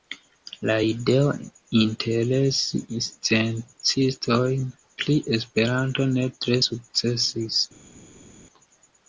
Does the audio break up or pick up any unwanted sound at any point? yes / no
no